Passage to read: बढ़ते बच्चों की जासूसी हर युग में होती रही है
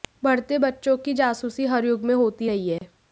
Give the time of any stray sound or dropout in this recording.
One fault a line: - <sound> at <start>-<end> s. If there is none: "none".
- dropout at 2.8-2.8 s